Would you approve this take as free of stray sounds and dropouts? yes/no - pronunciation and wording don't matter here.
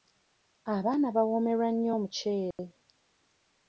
no